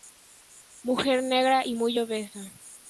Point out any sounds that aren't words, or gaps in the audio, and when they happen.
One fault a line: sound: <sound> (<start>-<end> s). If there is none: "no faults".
no faults